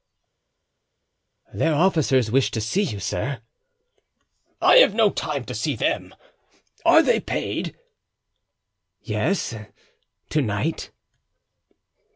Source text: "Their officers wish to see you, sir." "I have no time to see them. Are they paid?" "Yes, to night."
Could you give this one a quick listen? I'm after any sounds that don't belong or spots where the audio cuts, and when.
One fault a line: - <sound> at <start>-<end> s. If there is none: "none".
none